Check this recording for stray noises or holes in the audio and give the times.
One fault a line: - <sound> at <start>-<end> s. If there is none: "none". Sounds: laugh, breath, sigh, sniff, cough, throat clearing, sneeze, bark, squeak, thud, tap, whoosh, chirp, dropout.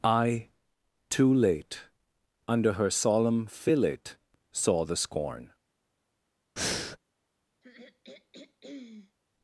- breath at 6.6-7.0 s
- throat clearing at 7.6-9.2 s